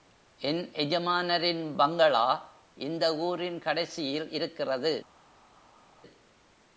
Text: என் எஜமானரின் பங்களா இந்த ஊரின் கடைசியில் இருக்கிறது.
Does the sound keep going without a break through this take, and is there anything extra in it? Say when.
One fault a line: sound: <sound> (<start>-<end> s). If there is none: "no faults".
no faults